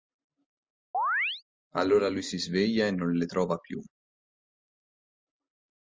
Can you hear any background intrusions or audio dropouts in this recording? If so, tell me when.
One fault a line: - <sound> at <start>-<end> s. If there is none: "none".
- chirp at 0.9-1.4 s